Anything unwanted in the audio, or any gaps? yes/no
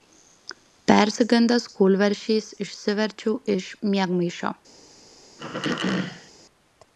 yes